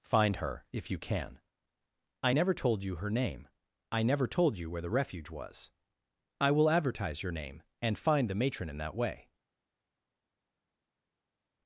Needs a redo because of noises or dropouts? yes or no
no